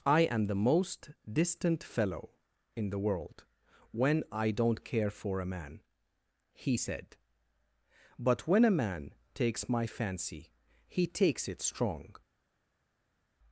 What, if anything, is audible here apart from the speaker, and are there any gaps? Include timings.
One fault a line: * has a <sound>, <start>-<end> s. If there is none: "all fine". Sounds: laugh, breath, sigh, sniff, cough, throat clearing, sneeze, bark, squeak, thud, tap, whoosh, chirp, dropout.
all fine